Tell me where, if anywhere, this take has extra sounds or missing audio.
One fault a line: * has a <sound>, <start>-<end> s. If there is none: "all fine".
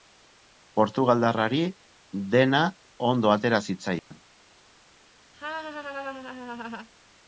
* has a dropout, 4.0-4.1 s
* has a laugh, 5.3-6.9 s